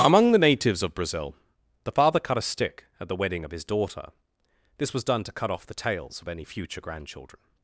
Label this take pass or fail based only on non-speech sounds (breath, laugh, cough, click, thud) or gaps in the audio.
pass